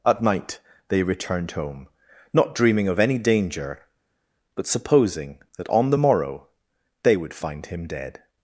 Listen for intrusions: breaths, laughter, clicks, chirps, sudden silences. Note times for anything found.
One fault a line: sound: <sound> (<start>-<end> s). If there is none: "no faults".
no faults